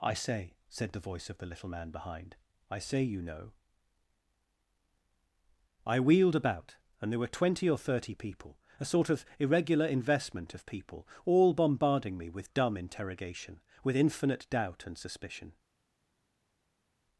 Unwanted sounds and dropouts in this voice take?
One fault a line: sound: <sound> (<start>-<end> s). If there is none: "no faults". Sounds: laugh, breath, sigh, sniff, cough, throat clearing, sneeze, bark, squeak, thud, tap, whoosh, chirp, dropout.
no faults